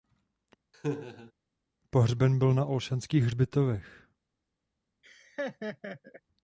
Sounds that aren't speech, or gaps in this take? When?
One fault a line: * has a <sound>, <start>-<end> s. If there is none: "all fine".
* has a laugh, 0.7-1.3 s
* has a laugh, 5.0-6.2 s